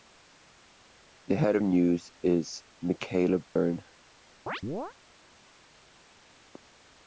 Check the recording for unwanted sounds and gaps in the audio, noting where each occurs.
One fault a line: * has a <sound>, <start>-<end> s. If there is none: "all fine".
* has a dropout, 3.4-3.6 s
* has a chirp, 4.5-4.9 s